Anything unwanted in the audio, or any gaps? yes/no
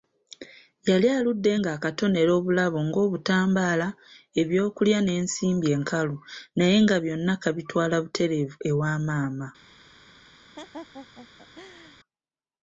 yes